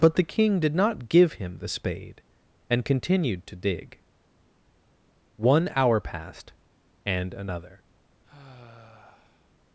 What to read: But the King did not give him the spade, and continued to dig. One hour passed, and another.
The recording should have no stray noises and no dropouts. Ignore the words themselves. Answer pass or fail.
fail